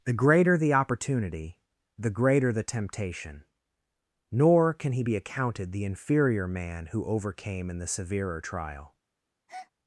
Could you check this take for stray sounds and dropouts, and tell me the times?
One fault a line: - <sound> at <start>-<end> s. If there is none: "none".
- breath at 9.5-9.7 s